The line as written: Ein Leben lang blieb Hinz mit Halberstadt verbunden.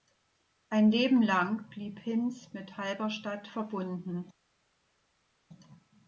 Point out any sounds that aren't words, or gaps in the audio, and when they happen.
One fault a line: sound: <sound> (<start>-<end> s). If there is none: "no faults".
no faults